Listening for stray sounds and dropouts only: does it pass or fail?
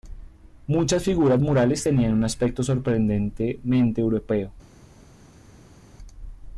pass